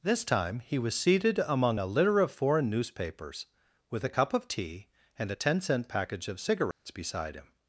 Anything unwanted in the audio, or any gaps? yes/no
yes